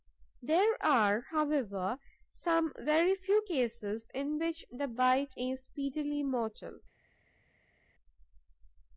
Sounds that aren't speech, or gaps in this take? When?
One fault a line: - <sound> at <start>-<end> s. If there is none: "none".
none